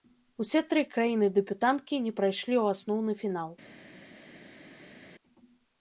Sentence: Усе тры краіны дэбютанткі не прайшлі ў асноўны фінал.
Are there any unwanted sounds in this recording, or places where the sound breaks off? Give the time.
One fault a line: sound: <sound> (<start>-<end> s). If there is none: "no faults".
no faults